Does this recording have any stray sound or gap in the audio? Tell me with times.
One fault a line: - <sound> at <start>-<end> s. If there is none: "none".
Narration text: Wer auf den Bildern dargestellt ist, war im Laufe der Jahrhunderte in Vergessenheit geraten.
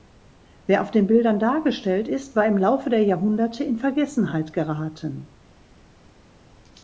none